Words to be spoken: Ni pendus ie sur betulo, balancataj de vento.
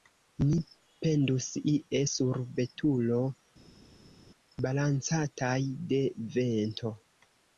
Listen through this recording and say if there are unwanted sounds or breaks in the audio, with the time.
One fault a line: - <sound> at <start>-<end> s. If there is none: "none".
none